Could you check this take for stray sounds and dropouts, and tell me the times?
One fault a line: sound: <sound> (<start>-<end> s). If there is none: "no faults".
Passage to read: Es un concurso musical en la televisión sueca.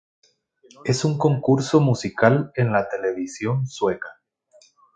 no faults